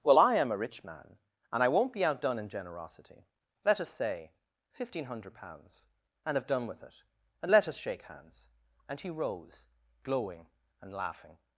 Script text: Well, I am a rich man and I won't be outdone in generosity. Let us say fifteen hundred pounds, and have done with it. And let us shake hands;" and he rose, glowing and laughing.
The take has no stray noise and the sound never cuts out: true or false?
true